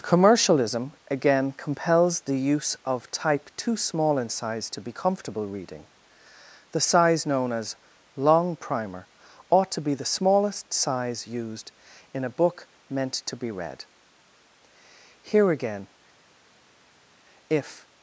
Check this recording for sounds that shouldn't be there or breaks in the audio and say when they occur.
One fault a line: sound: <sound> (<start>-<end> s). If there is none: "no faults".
no faults